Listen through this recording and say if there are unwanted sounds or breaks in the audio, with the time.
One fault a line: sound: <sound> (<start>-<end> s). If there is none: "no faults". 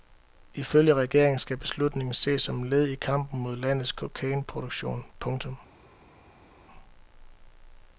no faults